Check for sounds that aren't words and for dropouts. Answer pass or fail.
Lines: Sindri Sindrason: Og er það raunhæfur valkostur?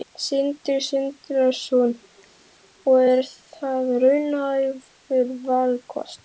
pass